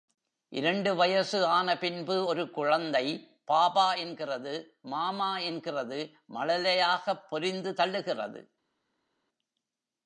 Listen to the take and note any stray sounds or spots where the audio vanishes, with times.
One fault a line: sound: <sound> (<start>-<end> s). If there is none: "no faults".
no faults